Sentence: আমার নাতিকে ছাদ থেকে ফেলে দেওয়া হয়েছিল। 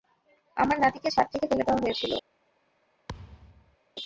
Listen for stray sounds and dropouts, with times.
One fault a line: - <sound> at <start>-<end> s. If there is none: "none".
- thud at 3.1-3.8 s